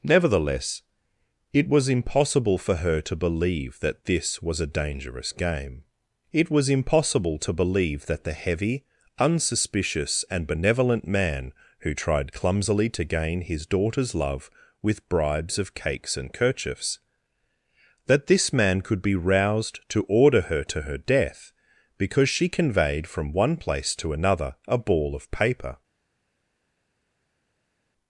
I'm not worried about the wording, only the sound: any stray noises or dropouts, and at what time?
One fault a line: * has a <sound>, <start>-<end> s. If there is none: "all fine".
all fine